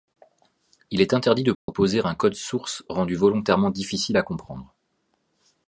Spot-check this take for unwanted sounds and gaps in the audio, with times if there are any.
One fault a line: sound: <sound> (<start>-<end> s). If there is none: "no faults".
sound: dropout (1.5-1.7 s)